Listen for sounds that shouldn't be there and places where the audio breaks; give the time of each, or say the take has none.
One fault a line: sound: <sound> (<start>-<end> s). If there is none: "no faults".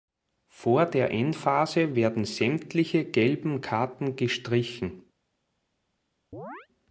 sound: chirp (6.3-6.7 s)